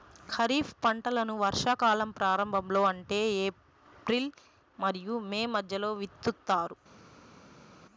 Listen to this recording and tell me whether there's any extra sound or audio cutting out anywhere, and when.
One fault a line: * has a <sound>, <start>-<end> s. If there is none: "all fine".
all fine